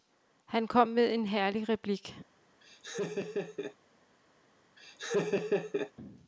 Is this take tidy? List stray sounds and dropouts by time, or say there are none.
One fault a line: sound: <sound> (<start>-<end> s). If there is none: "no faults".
sound: laugh (2.6-3.8 s)
sound: laugh (4.8-5.9 s)